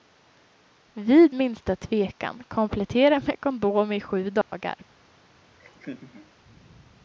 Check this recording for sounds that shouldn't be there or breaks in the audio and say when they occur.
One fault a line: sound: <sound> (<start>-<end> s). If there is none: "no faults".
sound: dropout (4.4-4.5 s)
sound: laugh (5.6-6.3 s)